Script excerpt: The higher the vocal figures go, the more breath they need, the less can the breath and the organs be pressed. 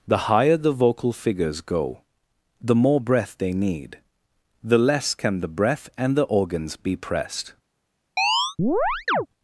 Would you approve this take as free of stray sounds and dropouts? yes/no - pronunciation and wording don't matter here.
no